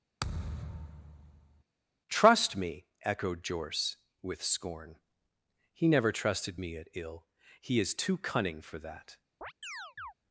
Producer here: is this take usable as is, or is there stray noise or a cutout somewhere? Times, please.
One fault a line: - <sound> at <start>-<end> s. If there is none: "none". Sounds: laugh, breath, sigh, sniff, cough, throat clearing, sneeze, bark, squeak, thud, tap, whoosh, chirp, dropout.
- thud at 0.2-1.6 s
- chirp at 9.4-10.1 s